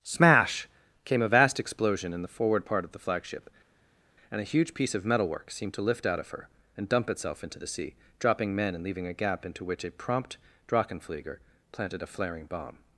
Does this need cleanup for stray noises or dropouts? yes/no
no